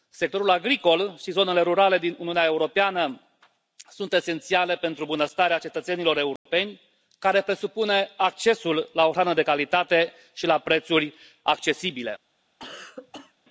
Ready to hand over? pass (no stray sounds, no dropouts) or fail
fail